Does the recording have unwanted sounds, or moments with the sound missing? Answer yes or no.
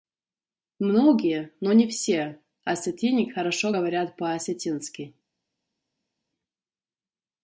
no